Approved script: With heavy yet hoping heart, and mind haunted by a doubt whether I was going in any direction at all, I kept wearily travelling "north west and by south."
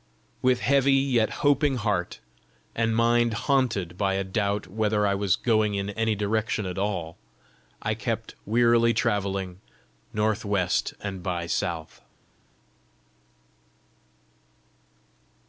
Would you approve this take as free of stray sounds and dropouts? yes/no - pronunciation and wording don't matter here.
yes